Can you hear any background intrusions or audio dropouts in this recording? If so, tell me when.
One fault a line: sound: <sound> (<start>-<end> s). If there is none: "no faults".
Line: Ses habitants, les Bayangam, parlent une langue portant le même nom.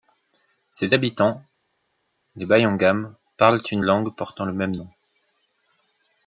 no faults